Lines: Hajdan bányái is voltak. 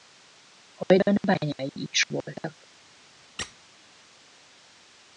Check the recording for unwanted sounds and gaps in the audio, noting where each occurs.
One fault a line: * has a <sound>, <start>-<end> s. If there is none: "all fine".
* has a squeak, 3.4-3.6 s